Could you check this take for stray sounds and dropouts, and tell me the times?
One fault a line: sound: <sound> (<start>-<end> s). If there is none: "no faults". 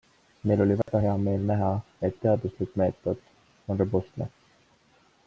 sound: dropout (0.8-0.9 s)